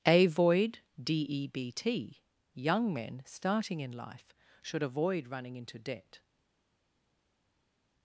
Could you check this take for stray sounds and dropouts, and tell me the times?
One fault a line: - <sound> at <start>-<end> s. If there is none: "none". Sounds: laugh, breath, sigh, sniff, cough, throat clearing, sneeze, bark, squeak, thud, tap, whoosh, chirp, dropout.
none